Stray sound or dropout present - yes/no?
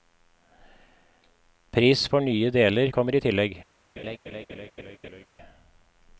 yes